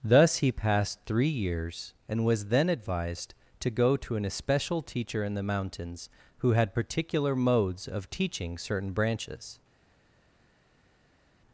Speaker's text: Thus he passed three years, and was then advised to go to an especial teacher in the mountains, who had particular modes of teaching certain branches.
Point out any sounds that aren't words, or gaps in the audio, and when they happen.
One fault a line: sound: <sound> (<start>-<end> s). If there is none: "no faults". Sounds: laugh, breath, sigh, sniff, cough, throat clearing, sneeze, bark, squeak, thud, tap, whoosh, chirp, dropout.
no faults